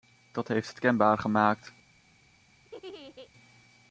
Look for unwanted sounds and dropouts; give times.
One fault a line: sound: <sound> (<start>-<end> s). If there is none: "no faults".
sound: laugh (2.6-3.3 s)